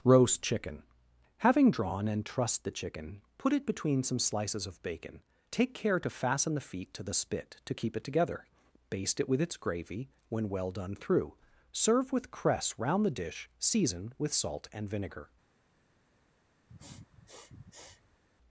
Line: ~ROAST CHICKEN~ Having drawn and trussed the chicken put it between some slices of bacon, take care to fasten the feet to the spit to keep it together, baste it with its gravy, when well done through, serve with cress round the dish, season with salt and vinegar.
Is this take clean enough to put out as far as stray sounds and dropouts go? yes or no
no